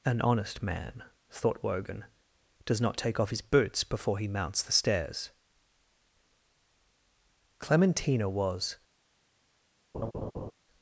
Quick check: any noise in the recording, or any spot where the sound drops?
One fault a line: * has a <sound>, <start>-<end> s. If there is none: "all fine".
* has a laugh, 9.9-10.5 s